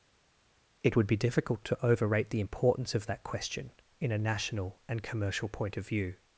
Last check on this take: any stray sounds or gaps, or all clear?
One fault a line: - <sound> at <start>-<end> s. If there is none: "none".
none